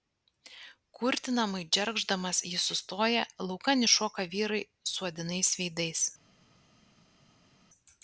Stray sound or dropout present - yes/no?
no